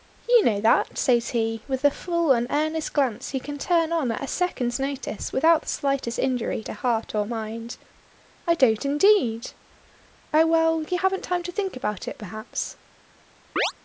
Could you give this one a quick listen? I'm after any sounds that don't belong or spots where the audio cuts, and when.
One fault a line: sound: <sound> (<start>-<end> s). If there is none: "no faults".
sound: chirp (13.6-13.7 s)